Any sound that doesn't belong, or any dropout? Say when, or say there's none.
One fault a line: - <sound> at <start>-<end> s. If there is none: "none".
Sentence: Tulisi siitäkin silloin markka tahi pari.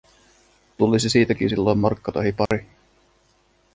- dropout at 2.5-2.5 s